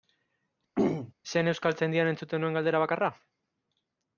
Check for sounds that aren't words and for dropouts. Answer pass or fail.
fail